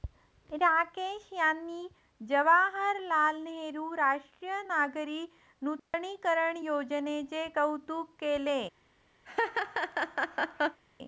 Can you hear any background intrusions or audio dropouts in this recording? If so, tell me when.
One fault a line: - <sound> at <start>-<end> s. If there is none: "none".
- dropout at 5.8-5.9 s
- laugh at 9.2-10.8 s